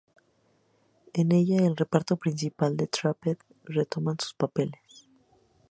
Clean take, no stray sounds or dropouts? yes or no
yes